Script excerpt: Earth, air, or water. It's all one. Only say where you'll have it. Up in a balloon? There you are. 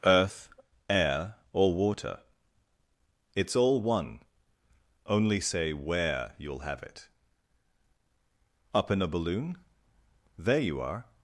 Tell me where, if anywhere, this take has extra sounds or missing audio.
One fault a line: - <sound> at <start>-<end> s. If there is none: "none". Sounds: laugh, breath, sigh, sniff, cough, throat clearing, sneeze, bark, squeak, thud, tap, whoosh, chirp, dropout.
none